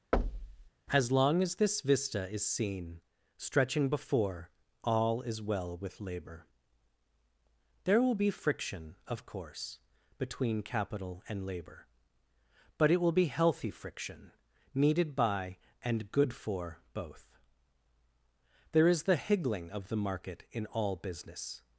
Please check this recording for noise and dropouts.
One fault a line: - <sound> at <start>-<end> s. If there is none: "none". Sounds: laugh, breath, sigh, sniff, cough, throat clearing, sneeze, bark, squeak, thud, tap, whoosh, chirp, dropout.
- thud at 0.1-0.7 s